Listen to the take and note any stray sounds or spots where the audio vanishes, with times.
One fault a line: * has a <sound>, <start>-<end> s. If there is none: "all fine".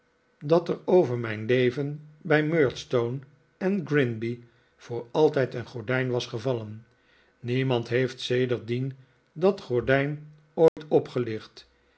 * has a dropout, 10.7-10.8 s